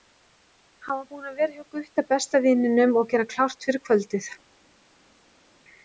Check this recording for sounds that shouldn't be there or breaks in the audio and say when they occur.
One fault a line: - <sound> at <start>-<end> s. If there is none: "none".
none